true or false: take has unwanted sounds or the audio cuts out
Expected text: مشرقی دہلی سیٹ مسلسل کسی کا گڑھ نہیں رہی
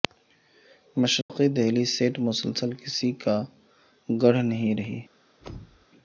true